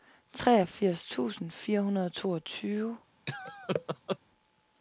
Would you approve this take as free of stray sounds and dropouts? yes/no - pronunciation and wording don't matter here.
no